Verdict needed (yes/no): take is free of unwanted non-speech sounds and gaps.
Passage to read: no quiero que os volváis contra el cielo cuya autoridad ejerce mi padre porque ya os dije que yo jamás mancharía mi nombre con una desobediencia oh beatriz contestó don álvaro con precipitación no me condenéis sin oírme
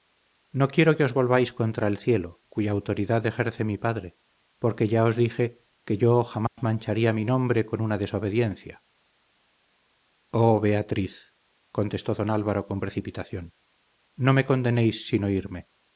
no